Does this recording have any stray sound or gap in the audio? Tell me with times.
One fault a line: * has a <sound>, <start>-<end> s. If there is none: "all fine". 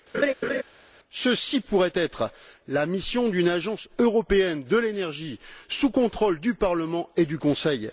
* has a laugh, 0.1-0.6 s